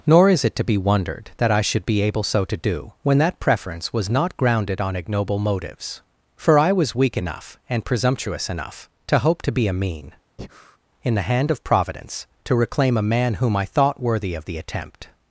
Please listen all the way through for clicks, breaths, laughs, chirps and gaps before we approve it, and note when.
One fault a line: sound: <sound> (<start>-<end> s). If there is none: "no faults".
sound: breath (10.4-10.8 s)